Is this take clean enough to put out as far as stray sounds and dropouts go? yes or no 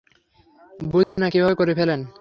no